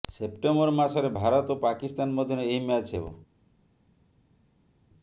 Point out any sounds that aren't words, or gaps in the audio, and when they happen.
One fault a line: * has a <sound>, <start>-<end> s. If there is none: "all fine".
all fine